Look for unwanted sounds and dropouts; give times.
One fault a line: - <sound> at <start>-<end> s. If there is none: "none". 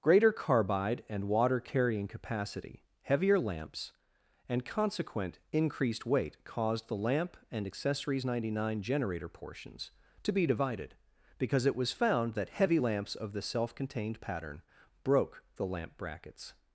none